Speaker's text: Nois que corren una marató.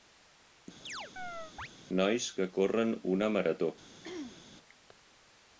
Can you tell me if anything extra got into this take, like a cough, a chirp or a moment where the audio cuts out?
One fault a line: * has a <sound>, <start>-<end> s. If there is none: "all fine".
* has a chirp, 0.8-1.7 s
* has a throat clearing, 4.0-4.5 s